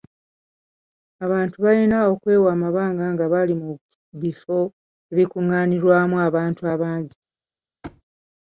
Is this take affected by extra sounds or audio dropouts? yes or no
yes